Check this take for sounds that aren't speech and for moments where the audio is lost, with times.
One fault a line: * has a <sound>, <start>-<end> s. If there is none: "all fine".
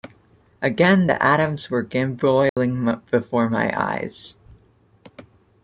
* has a dropout, 2.5-2.6 s